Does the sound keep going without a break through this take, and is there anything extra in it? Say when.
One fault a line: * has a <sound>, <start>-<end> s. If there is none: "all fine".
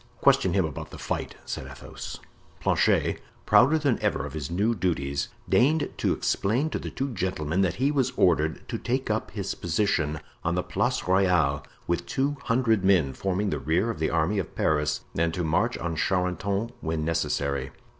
all fine